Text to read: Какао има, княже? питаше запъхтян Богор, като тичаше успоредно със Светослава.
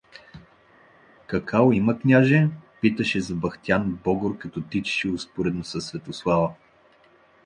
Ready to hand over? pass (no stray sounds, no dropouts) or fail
pass